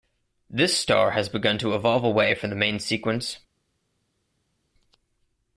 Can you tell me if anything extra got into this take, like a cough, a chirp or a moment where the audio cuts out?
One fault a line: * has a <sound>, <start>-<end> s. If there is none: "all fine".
all fine